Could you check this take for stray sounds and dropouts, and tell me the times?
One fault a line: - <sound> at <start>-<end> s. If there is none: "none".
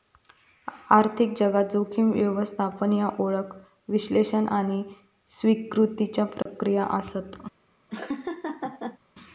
- dropout at 6.4-6.5 s
- laugh at 7.9-9.0 s